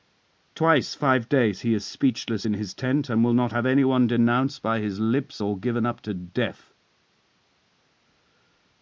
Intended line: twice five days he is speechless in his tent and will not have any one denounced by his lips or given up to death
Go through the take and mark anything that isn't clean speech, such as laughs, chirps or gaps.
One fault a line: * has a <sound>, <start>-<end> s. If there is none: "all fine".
all fine